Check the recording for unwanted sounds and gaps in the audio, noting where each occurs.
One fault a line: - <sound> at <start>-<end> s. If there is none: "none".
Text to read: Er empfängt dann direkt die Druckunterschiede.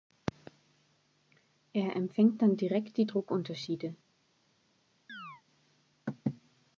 - chirp at 5.1-5.4 s